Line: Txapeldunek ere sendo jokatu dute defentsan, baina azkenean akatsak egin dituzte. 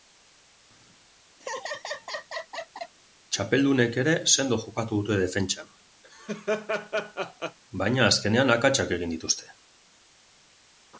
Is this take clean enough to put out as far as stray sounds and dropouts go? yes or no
no